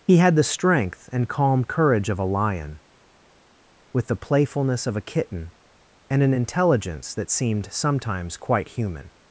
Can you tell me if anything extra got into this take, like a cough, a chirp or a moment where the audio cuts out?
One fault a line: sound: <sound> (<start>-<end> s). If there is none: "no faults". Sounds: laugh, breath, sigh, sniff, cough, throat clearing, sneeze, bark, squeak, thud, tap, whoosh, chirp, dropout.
no faults